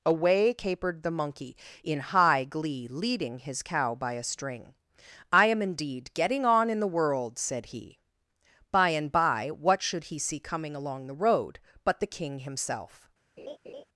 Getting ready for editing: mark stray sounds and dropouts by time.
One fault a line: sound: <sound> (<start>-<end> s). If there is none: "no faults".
sound: laugh (13.4-13.8 s)